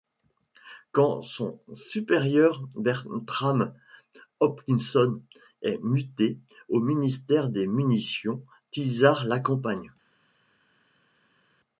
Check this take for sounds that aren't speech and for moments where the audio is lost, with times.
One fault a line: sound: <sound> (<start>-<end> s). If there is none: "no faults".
no faults